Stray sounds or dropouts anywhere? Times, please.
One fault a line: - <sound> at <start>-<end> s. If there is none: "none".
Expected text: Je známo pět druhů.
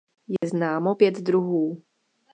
- dropout at 0.4-0.4 s